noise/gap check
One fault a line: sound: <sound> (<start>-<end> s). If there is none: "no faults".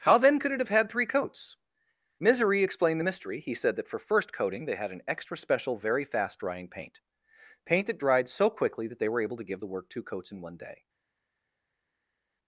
no faults